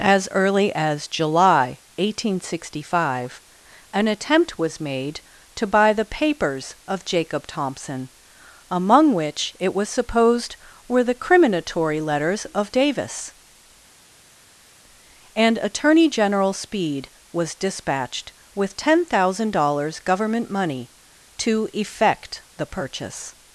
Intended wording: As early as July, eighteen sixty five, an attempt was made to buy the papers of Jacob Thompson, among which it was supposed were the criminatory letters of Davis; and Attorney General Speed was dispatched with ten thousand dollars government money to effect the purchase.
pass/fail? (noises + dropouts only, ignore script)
pass